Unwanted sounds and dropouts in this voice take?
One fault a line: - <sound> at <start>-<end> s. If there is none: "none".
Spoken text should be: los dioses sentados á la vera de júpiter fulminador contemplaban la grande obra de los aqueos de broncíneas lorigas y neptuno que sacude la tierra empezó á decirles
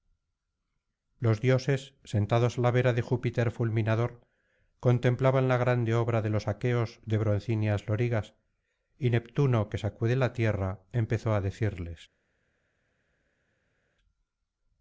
none